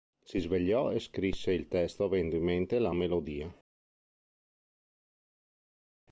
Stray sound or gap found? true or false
false